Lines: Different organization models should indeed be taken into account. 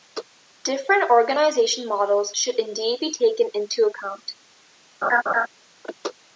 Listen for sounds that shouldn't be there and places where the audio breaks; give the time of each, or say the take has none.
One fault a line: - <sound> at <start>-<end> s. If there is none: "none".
- laugh at 5.0-5.5 s